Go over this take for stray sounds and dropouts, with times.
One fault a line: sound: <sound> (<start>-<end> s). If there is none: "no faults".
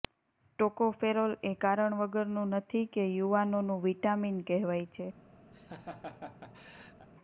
sound: laugh (5.5-7.1 s)